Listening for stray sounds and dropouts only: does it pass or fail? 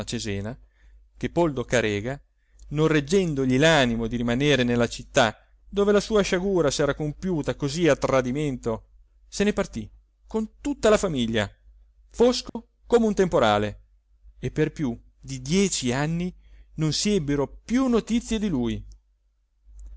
fail